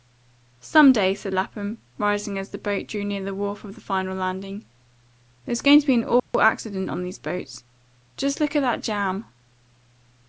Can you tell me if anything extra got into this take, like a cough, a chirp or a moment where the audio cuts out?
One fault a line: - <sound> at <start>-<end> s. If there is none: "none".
- dropout at 6.2-6.3 s